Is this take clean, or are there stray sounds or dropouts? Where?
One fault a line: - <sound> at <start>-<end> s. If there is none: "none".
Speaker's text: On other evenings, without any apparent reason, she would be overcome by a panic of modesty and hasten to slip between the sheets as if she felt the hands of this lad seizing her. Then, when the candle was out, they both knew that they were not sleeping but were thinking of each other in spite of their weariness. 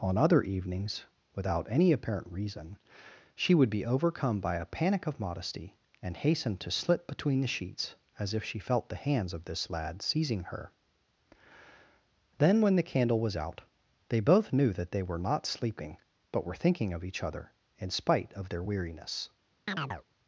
- chirp at 19.7-20.0 s